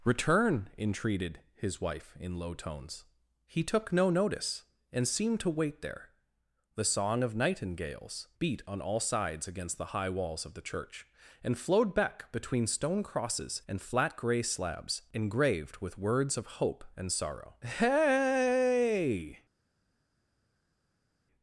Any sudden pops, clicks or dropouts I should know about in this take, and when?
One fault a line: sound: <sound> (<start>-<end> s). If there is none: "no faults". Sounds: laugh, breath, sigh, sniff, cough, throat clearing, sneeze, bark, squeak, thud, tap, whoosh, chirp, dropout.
no faults